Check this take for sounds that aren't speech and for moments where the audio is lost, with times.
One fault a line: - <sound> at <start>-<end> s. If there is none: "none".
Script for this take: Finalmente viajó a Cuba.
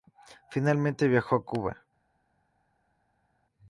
none